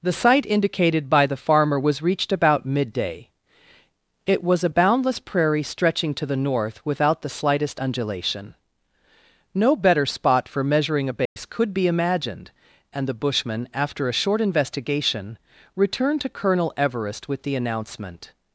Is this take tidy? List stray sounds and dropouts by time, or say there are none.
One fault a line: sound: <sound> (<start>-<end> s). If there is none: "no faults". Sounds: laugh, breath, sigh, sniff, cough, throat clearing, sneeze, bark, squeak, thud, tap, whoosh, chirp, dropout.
sound: dropout (11.3-11.4 s)